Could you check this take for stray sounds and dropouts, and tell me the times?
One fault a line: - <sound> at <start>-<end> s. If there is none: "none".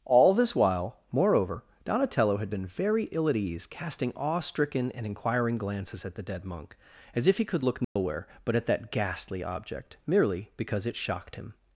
- dropout at 7.8-8.0 s